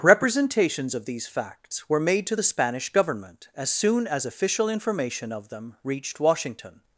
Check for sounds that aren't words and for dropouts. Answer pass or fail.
pass